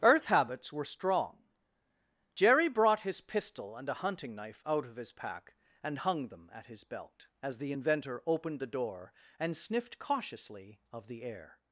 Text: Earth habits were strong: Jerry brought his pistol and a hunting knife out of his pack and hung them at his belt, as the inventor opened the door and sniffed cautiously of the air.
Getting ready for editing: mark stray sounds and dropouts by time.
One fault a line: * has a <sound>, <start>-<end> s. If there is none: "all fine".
all fine